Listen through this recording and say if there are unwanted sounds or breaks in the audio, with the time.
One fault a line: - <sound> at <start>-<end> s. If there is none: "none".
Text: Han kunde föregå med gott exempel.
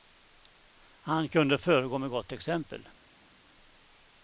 none